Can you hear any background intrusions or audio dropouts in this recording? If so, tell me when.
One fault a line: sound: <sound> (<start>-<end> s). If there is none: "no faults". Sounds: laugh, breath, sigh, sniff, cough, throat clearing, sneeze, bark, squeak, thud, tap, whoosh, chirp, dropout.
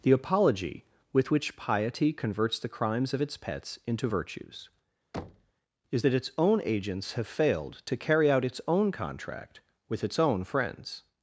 sound: thud (5.1-5.5 s)